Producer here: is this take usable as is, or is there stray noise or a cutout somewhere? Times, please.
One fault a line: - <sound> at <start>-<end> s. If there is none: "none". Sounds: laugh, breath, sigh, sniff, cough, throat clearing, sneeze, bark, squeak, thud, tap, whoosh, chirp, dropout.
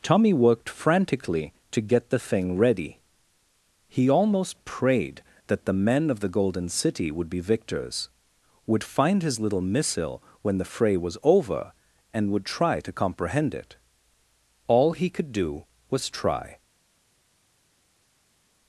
none